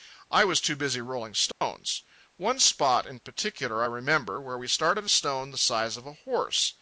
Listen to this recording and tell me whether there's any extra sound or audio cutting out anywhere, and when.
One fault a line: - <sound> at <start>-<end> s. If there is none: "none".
- dropout at 1.5-1.6 s